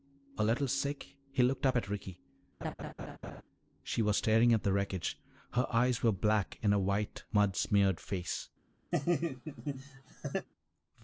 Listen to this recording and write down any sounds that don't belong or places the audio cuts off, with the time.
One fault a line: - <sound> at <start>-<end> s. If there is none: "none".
- laugh at 2.6-3.4 s
- laugh at 8.9-10.5 s